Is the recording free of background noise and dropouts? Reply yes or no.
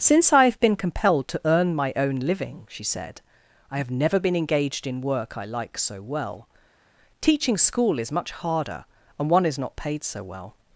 yes